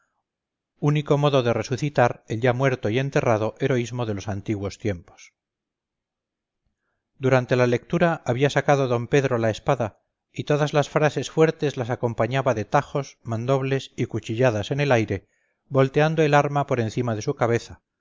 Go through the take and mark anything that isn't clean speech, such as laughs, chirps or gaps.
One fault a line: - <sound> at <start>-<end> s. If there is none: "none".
none